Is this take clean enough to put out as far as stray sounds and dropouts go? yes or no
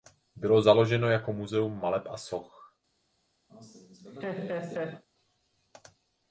no